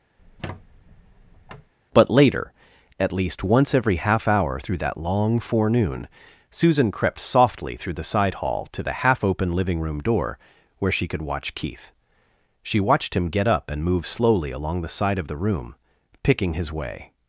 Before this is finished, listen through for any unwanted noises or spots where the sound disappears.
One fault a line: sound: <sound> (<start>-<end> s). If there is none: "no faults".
sound: squeak (0.2-1.7 s)